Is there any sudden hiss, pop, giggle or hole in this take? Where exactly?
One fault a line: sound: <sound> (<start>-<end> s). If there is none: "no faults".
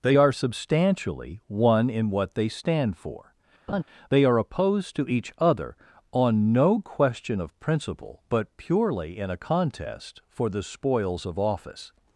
sound: laugh (3.7-3.8 s)